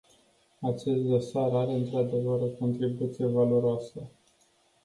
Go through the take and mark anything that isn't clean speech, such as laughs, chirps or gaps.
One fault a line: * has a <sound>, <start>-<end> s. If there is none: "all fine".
all fine